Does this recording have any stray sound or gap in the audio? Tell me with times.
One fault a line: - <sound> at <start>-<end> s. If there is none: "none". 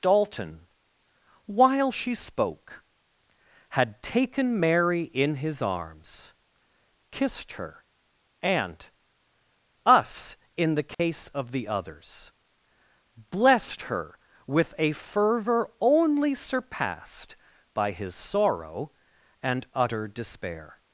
- dropout at 10.9-11.0 s